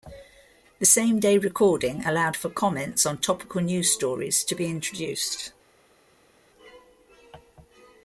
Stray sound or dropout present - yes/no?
no